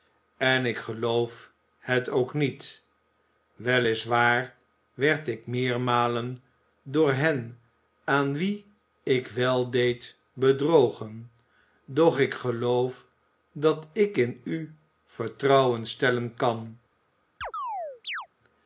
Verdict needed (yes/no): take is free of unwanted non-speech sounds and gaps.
no